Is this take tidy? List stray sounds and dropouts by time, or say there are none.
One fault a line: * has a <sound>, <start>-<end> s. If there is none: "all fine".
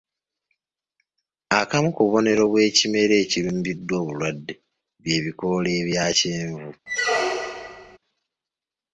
* has a squeak, 6.9-8.0 s